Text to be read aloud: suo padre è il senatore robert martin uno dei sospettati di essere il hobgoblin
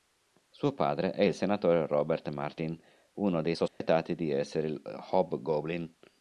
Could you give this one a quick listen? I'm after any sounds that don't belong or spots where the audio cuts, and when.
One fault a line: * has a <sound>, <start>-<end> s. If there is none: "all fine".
* has a dropout, 3.7-3.8 s